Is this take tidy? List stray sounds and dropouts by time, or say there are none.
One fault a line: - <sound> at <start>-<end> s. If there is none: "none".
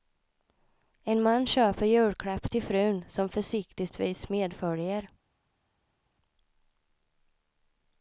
none